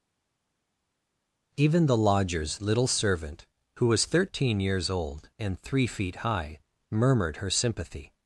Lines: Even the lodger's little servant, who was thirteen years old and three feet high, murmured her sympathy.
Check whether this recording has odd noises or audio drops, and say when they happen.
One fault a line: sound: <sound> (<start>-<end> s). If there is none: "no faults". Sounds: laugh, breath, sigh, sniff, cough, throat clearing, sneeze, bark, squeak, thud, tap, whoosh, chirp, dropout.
no faults